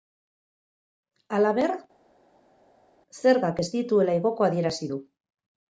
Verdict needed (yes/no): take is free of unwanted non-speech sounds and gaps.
yes